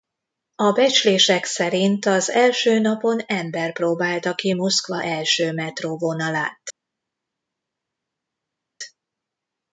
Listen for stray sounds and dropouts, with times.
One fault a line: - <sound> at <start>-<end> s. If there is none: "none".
none